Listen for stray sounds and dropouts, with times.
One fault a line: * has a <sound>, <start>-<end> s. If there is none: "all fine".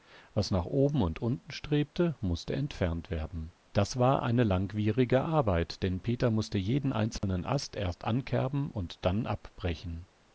* has a dropout, 7.2-7.2 s